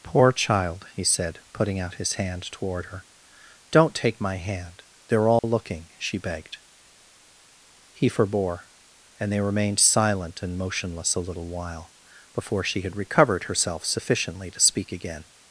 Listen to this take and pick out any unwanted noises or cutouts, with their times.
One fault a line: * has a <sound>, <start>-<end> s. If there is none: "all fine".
* has a dropout, 5.4-5.4 s